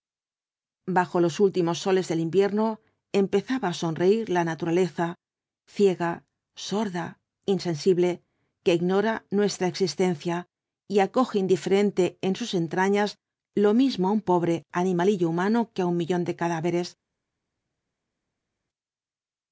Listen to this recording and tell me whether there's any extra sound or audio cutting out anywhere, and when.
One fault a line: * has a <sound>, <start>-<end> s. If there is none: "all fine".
all fine